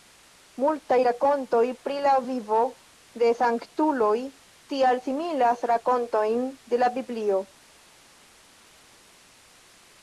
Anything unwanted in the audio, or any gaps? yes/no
no